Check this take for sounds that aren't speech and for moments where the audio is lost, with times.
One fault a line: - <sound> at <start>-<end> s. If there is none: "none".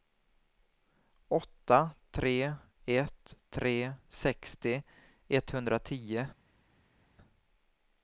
none